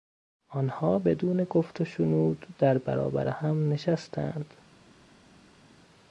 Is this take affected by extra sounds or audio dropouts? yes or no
no